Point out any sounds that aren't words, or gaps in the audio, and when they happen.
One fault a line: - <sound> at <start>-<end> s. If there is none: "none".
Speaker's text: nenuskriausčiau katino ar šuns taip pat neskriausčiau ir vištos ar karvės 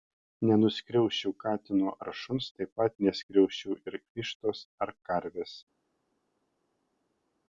none